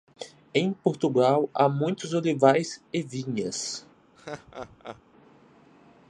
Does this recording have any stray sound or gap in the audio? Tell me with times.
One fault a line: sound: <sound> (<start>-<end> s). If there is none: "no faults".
sound: laugh (4.2-5.0 s)